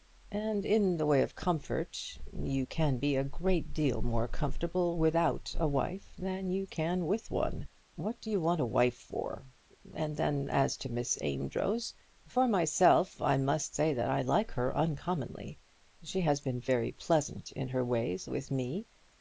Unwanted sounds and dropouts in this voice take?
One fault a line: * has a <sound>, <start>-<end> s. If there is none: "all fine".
all fine